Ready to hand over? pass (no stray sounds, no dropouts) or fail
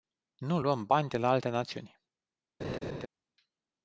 fail